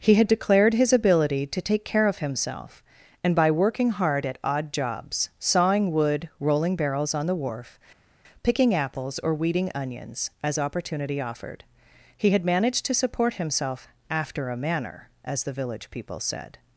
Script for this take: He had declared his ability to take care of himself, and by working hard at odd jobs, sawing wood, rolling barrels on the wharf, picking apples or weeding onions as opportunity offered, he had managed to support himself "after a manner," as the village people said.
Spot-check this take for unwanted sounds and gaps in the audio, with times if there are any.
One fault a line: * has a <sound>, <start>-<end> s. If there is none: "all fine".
all fine